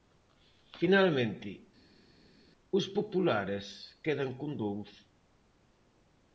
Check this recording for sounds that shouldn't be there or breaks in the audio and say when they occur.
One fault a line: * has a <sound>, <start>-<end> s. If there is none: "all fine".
all fine